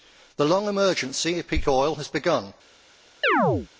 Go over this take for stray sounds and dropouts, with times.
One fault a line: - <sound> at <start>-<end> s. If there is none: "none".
- chirp at 3.2-3.7 s